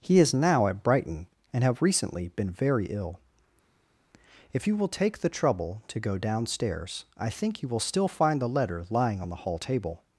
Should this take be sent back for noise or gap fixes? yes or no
no